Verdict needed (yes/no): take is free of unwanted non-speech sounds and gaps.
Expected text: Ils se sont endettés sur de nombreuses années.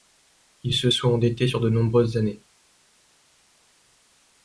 yes